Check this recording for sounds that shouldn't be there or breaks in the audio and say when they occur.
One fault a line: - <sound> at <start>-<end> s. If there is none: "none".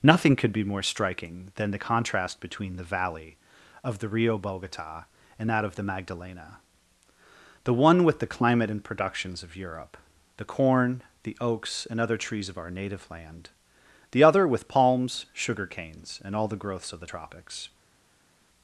none